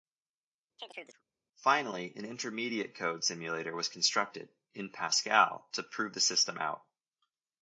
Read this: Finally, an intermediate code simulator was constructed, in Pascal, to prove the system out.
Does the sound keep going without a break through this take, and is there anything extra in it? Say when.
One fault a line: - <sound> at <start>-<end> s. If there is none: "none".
- chirp at 0.8-1.2 s